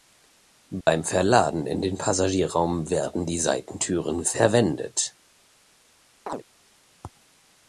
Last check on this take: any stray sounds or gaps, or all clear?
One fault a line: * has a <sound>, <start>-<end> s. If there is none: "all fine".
* has a dropout, 0.8-0.9 s
* has a chirp, 6.3-6.4 s